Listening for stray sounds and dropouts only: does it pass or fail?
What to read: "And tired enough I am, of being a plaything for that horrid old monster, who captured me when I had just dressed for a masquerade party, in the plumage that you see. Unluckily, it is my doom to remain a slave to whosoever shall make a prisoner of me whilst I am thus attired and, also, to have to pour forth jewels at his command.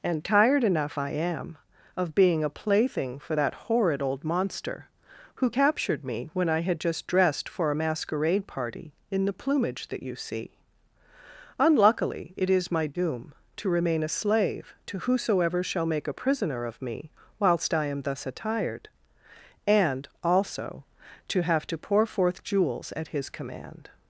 pass